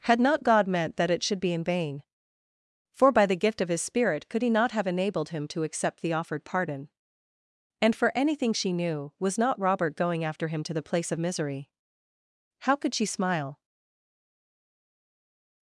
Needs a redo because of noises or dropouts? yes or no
no